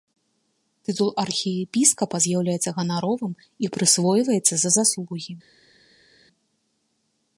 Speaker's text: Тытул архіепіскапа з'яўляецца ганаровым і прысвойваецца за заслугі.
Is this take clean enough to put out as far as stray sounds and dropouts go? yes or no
yes